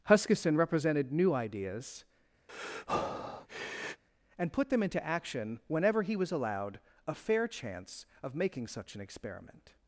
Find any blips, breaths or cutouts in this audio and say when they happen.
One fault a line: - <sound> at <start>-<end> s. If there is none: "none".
- breath at 2.5-4.0 s